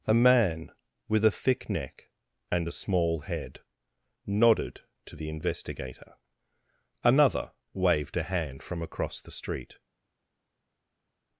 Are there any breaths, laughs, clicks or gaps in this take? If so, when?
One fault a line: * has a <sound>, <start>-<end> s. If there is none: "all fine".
all fine